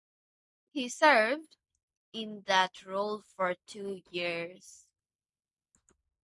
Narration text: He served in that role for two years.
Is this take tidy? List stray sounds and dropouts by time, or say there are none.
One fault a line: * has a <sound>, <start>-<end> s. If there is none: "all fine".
all fine